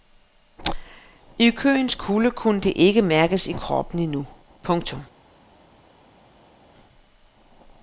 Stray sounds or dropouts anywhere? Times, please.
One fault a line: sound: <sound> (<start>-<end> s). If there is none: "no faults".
no faults